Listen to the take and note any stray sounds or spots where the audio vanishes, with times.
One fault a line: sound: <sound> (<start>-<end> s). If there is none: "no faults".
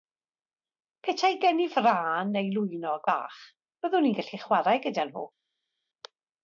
no faults